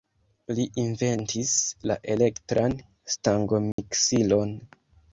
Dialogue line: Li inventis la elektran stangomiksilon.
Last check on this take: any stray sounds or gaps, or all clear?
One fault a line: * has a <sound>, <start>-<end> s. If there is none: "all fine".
* has a dropout, 3.7-3.8 s